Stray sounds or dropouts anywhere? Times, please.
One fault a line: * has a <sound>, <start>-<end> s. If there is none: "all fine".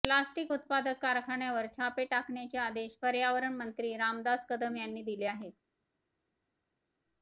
all fine